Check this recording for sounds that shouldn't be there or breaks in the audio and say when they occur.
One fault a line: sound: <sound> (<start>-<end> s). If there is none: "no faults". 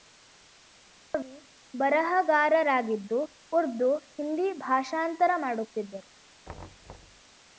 sound: thud (6.4-7.2 s)